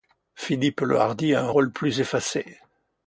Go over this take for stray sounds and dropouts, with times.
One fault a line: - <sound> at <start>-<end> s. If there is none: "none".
none